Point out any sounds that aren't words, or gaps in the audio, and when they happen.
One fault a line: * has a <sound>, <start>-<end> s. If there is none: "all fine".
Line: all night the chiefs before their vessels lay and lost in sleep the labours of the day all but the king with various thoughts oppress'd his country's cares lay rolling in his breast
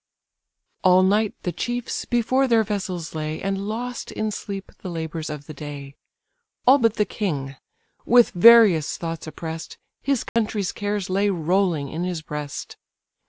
* has a dropout, 10.3-10.4 s